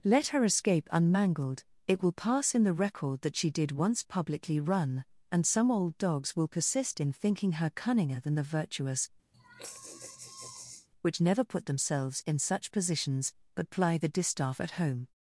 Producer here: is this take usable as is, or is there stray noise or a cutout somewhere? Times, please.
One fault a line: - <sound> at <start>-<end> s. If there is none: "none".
- sigh at 9.3-10.9 s